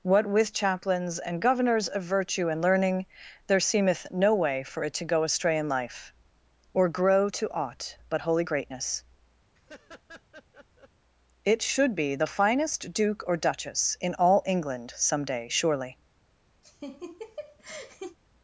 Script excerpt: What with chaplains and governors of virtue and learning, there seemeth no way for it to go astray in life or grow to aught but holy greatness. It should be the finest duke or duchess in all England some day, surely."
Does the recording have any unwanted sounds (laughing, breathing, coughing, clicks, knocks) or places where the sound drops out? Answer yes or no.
yes